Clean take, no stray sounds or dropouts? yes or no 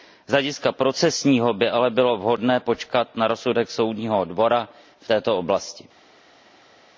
yes